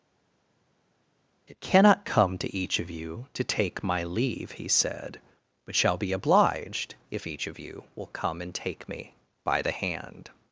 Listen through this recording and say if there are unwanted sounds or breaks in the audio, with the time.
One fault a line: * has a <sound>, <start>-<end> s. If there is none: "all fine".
all fine